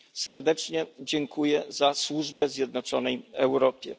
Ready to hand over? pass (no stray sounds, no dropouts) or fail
fail